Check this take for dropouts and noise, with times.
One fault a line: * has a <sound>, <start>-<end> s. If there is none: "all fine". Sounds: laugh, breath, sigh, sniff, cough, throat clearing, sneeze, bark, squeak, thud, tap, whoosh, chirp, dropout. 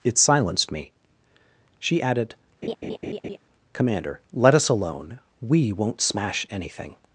* has a laugh, 2.6-3.4 s